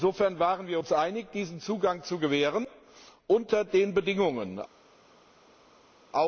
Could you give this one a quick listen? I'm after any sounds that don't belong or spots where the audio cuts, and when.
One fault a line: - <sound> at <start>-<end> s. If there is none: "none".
none